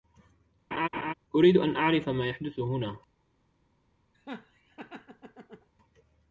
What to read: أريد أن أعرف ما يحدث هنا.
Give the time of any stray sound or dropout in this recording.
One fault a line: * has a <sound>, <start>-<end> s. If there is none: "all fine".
* has a laugh, 0.7-1.1 s
* has a laugh, 4.1-5.7 s